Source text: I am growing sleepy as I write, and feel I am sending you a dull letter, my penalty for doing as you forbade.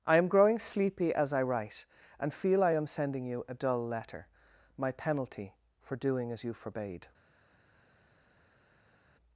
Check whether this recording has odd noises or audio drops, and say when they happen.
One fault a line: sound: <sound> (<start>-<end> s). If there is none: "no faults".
no faults